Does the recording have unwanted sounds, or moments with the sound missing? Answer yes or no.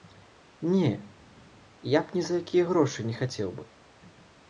no